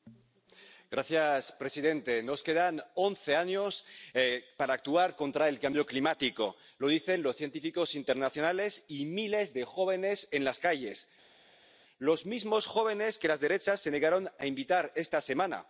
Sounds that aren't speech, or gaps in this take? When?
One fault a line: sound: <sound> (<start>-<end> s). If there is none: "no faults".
no faults